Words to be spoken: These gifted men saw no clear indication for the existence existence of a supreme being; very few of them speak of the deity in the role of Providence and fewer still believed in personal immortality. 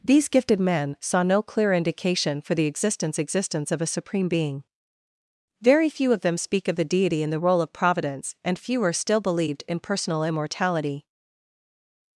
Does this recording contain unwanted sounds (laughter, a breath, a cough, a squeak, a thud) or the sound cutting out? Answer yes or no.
no